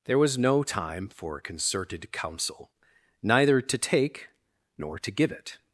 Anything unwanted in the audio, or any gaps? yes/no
no